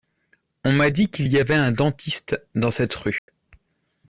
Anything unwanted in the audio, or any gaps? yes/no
yes